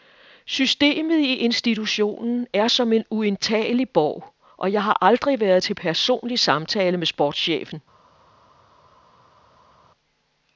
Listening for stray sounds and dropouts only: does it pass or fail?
pass